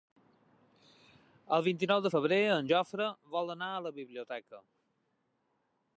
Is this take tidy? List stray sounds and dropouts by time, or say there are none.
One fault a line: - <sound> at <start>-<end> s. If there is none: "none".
none